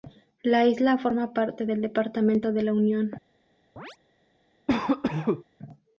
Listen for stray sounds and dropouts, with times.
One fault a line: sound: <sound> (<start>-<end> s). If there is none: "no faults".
sound: chirp (3.8-4.0 s)
sound: cough (4.7-5.4 s)